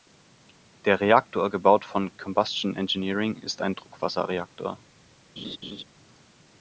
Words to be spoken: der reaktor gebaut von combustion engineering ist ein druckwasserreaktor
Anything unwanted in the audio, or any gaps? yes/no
yes